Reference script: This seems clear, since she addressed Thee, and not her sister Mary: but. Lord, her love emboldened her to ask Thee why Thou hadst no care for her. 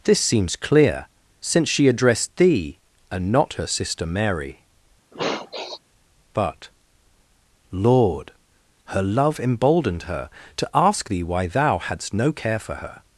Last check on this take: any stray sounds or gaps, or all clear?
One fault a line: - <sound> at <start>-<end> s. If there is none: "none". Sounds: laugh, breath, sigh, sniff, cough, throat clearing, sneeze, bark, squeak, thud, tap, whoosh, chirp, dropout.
- sniff at 5.1-5.8 s